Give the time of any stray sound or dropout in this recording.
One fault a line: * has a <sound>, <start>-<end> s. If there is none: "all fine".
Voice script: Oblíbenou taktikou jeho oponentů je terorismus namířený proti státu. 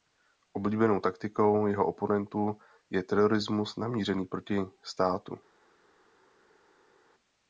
all fine